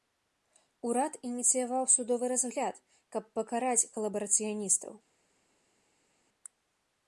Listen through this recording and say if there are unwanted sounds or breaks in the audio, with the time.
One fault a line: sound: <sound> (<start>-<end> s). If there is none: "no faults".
no faults